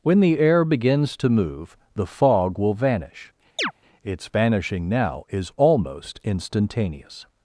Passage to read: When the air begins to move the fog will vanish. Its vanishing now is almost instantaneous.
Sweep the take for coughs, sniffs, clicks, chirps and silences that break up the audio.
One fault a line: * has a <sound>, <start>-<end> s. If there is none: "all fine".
* has a chirp, 3.6-3.7 s